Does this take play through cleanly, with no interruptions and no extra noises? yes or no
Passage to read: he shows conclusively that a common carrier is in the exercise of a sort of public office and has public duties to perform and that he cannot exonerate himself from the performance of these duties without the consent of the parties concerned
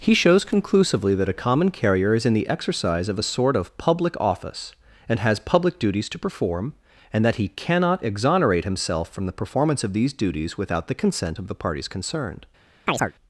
no